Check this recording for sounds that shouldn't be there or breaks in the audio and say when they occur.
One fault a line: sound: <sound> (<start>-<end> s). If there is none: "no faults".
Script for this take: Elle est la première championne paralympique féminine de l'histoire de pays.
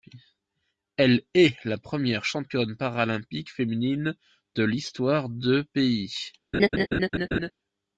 sound: laugh (6.5-7.5 s)